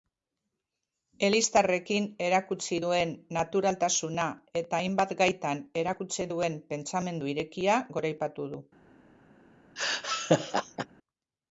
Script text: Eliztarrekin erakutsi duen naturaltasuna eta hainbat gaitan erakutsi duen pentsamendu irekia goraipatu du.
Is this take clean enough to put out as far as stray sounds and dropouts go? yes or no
no